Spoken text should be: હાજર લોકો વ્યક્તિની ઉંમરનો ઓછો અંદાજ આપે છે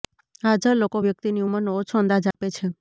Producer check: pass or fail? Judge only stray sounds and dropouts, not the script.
fail